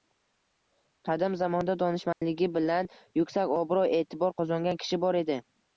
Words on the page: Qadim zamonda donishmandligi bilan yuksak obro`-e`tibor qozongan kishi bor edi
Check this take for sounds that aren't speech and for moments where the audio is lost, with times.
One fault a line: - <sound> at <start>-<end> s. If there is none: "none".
- dropout at 2.1-2.2 s